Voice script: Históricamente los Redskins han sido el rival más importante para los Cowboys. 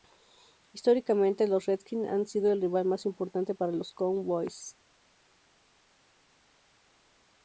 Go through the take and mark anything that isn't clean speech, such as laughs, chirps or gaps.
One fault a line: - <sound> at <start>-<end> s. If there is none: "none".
none